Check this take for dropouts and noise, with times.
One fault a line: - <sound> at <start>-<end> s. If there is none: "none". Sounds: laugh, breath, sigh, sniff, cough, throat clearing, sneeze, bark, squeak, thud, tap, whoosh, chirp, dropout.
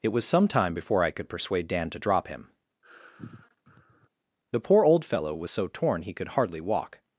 - sigh at 2.8-4.1 s